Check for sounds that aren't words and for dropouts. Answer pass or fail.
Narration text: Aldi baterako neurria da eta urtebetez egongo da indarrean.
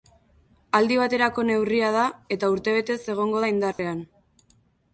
fail